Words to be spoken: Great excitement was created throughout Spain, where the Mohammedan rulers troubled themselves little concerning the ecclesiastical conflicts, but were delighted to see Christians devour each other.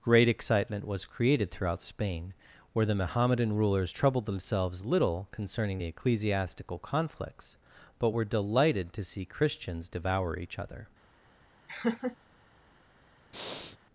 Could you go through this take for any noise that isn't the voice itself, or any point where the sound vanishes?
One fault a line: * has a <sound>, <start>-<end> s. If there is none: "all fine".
* has a laugh, 11.7-12.2 s
* has a breath, 13.3-13.8 s